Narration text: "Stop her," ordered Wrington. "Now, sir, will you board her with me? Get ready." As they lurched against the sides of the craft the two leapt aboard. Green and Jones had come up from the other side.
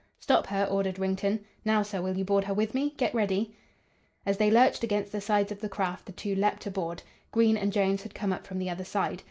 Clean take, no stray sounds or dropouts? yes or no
yes